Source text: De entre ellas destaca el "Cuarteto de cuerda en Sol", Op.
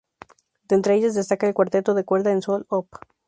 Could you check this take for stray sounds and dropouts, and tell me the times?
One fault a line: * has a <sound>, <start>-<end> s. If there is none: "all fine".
all fine